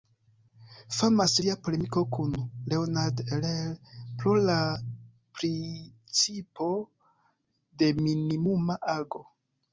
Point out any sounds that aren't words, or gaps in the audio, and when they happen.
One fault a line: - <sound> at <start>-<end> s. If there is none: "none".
none